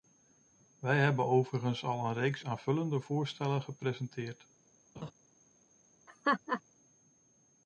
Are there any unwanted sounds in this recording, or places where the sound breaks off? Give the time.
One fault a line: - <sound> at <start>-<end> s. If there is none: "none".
- laugh at 5.0-5.1 s
- laugh at 6.1-6.6 s